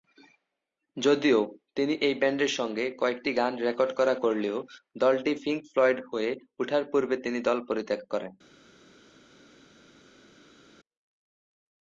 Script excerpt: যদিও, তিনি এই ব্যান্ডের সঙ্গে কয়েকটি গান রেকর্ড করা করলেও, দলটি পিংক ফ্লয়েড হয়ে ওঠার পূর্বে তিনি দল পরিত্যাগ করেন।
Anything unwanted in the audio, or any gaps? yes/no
no